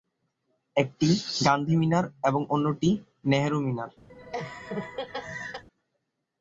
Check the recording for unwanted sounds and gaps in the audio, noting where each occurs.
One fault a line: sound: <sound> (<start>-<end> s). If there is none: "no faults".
sound: laugh (4.1-5.6 s)